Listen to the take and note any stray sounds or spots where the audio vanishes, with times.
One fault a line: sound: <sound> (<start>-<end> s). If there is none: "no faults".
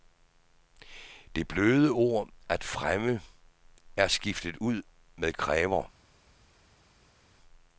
no faults